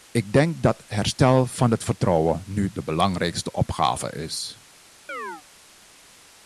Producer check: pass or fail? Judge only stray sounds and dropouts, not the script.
fail